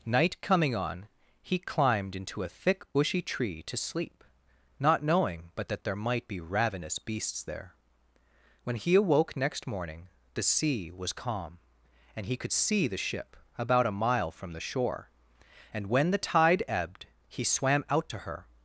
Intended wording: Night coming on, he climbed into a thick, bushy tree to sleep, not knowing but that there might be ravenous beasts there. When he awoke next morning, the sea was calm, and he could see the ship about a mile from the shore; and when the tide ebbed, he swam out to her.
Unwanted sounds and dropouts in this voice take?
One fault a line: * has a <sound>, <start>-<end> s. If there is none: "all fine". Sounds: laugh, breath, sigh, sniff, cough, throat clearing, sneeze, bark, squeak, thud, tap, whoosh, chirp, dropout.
all fine